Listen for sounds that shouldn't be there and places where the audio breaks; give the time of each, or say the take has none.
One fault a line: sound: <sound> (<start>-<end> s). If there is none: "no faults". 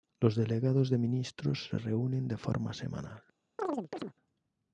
sound: chirp (3.6-4.1 s)